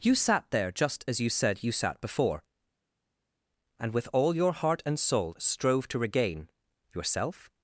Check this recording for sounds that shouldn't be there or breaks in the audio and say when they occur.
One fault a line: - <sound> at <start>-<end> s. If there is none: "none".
none